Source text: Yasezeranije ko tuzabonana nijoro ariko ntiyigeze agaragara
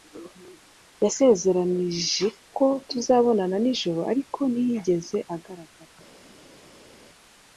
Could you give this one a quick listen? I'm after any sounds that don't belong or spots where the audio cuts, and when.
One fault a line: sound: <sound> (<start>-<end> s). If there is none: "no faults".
no faults